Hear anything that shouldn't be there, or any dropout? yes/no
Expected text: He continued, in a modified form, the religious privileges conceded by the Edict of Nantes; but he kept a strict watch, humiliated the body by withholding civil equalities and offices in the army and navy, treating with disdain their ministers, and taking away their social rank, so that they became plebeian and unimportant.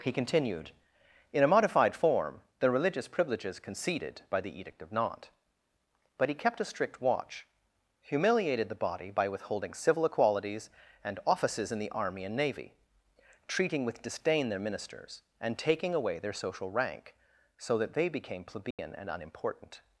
yes